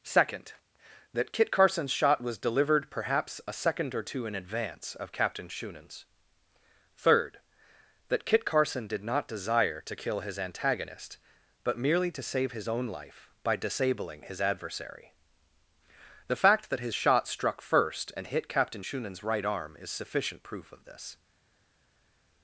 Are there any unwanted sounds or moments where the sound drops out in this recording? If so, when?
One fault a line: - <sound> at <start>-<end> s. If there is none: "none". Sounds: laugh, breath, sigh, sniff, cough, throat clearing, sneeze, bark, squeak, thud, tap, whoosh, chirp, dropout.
none